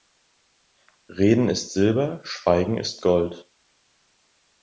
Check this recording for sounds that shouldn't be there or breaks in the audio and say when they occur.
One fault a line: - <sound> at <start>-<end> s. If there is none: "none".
none